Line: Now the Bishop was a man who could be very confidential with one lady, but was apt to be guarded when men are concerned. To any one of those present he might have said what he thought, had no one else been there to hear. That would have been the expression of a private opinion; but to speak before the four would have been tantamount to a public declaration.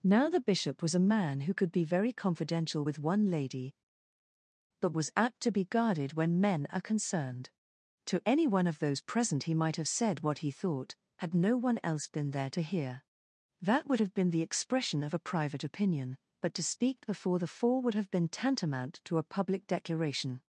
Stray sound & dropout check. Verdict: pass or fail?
pass